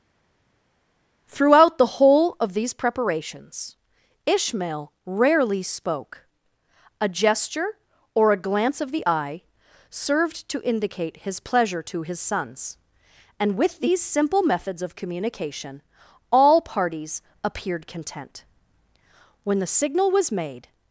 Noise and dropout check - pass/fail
pass